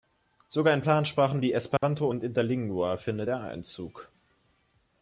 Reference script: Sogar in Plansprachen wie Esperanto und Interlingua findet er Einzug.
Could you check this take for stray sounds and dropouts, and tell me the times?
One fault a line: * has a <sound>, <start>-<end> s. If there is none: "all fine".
* has a dropout, 1.8-1.8 s